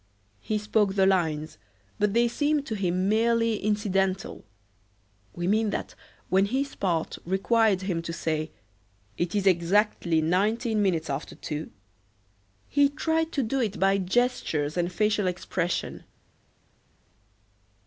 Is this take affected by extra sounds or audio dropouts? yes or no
no